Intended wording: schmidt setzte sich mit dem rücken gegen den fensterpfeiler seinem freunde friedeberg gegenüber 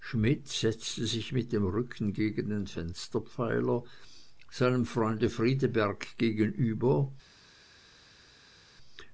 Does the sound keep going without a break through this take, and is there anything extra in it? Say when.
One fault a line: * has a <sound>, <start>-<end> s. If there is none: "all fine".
all fine